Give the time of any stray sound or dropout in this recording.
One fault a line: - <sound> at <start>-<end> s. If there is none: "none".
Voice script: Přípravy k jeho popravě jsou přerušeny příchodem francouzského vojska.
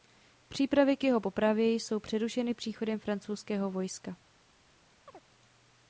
- chirp at 5.1-5.2 s